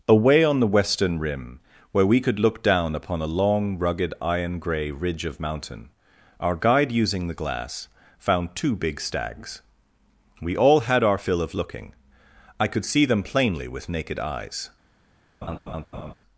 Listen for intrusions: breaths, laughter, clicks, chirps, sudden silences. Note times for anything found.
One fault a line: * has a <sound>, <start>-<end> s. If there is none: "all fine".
* has a laugh, 15.4-16.1 s